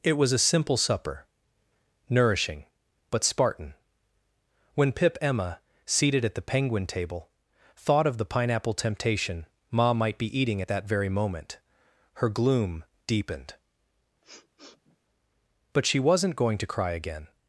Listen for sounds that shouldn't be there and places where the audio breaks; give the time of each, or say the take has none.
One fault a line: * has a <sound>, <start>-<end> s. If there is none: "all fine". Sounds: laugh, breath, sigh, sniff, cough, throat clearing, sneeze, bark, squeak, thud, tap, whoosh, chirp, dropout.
* has a sniff, 14.2-15.0 s